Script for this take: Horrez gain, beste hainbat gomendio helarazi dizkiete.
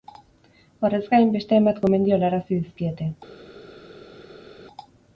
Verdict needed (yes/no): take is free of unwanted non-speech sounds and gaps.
yes